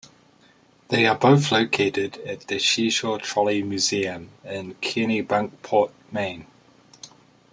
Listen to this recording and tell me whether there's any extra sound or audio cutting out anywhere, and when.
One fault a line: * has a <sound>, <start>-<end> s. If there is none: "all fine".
all fine